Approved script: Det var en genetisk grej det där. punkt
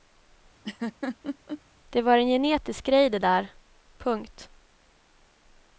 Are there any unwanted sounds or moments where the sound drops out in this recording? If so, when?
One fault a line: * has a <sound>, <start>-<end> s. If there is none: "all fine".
* has a laugh, 0.6-1.6 s